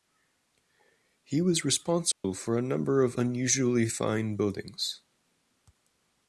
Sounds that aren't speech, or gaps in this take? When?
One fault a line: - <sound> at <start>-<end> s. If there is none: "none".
- dropout at 2.1-2.2 s